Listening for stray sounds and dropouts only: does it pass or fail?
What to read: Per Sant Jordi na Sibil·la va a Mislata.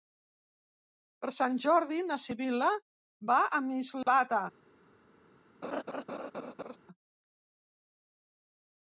fail